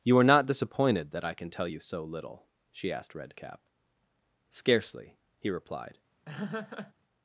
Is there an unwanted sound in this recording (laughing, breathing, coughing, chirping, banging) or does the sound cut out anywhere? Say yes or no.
yes